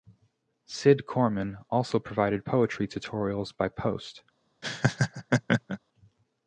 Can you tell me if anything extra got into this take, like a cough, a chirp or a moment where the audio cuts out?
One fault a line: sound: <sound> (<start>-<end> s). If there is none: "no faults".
sound: laugh (4.6-5.8 s)